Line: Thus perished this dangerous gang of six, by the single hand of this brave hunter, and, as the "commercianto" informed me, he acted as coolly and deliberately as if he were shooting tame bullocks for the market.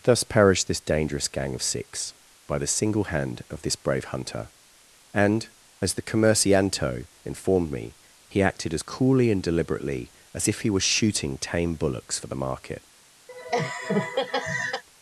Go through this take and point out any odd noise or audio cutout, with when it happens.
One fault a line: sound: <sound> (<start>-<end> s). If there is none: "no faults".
sound: laugh (13.3-14.8 s)